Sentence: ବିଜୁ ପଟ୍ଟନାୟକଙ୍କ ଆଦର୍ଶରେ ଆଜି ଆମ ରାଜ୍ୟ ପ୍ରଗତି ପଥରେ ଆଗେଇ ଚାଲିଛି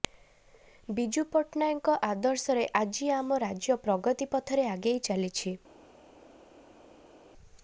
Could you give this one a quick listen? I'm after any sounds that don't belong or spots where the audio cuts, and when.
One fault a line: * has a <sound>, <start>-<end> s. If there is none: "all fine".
all fine